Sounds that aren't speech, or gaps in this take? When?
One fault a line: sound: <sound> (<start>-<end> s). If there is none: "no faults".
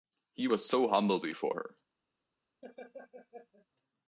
sound: laugh (2.6-3.7 s)